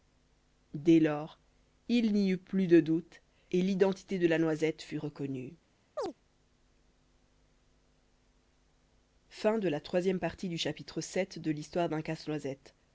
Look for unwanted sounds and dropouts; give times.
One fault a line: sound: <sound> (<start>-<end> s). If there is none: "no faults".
sound: chirp (6.0-6.1 s)